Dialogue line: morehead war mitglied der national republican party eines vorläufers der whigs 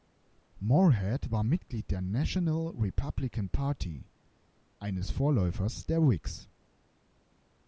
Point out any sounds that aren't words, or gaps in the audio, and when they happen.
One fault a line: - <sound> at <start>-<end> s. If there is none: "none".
none